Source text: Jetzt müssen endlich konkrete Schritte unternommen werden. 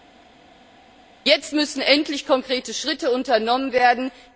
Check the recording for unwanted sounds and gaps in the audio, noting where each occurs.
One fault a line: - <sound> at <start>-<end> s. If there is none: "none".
none